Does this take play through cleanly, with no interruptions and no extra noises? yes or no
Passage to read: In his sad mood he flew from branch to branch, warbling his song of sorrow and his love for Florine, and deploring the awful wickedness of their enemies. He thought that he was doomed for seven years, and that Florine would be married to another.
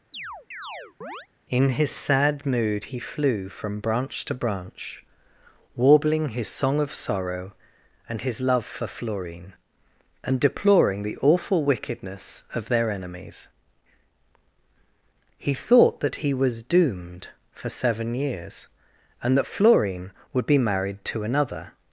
no